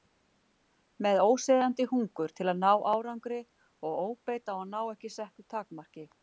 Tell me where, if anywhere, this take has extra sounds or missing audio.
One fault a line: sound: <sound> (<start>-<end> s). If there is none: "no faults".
no faults